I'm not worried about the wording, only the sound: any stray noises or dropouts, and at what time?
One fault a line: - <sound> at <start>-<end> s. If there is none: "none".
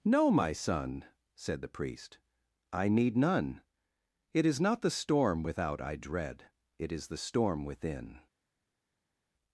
none